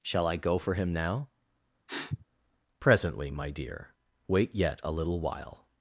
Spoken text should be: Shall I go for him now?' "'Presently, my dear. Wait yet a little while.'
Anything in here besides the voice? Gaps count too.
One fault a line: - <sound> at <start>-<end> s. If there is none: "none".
- sniff at 1.9-2.3 s